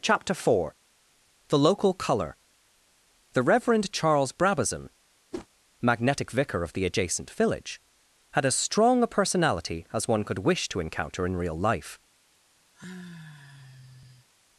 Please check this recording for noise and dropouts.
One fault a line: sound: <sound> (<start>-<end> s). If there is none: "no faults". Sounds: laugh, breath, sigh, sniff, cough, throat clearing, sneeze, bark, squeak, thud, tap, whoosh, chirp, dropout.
sound: whoosh (5.3-5.5 s)
sound: sigh (12.7-14.3 s)